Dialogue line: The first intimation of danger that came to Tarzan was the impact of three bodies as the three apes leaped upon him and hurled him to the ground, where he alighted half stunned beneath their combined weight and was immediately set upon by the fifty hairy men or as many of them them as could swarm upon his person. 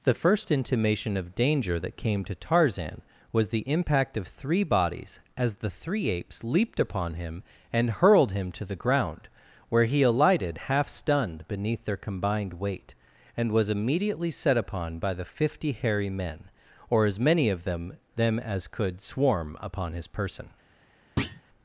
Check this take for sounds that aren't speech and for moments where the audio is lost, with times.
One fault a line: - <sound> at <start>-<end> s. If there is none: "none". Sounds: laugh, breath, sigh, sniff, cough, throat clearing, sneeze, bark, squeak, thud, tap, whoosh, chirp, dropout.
- thud at 21.2-21.4 s